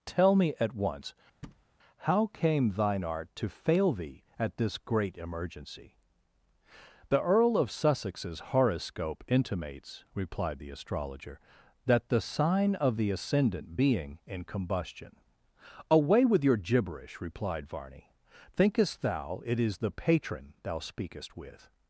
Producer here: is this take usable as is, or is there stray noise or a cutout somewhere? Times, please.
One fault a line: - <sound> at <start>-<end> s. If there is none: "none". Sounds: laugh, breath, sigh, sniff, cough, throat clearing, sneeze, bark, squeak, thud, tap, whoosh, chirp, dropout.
- thud at 1.4-1.6 s